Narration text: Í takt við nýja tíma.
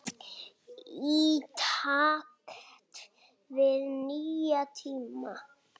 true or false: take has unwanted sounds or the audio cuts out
false